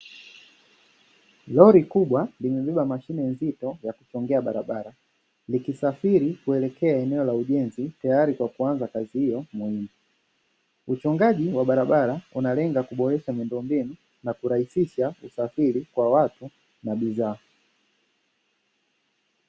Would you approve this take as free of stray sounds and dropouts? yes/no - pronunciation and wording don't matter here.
yes